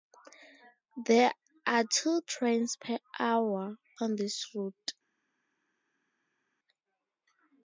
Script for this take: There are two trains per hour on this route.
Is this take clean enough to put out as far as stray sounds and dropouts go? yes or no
yes